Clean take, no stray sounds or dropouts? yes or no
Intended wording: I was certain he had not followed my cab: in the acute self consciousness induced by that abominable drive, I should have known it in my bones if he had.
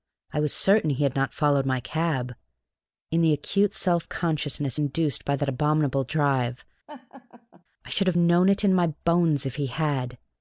no